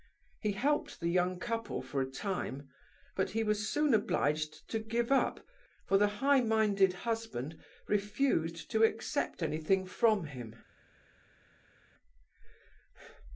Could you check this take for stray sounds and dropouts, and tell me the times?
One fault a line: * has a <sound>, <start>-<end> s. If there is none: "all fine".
all fine